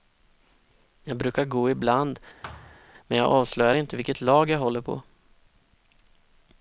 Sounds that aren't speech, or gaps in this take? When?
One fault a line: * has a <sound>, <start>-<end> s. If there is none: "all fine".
* has a thud, 2.4-2.8 s